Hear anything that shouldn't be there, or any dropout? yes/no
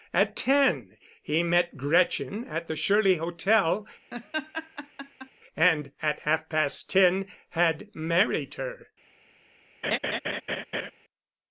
yes